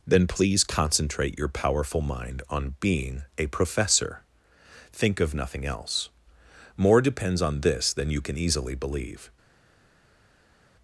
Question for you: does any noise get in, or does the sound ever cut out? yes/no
no